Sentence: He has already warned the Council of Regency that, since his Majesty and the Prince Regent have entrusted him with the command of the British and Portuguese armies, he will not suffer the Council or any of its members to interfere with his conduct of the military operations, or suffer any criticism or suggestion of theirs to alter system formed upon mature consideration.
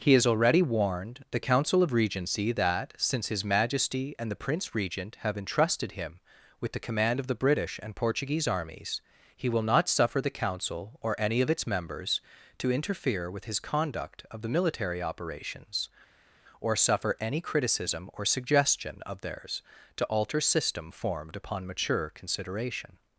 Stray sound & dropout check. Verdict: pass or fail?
pass